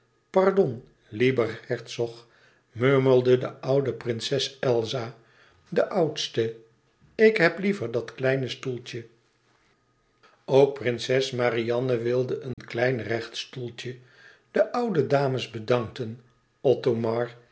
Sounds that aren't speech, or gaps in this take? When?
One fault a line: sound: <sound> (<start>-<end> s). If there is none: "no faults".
sound: dropout (12.5-12.6 s)